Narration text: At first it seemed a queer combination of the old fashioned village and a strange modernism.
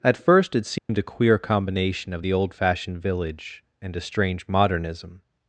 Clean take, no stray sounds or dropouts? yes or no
no